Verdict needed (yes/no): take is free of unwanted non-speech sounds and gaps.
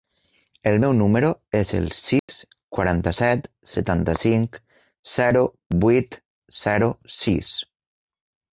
no